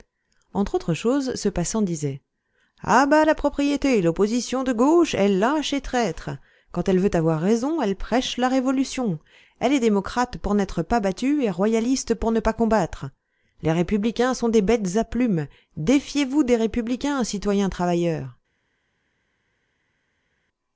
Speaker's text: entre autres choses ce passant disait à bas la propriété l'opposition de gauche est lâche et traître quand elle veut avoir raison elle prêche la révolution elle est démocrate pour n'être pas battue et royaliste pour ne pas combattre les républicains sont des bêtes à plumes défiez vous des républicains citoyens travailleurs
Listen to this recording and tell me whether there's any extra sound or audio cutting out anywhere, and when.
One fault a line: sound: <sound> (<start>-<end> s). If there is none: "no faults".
no faults